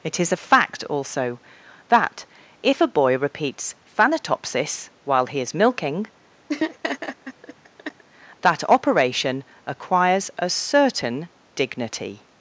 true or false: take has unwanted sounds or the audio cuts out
true